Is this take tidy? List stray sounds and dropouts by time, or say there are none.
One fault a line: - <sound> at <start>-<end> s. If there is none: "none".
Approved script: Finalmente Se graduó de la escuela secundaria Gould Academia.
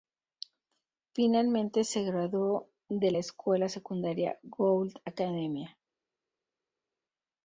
none